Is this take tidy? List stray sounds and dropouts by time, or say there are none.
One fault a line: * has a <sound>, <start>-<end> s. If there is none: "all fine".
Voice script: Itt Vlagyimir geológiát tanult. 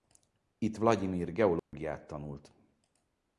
* has a dropout, 1.6-1.7 s